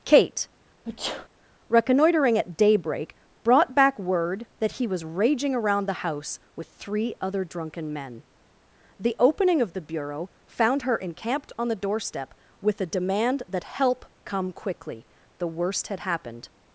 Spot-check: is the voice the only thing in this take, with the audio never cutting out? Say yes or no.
no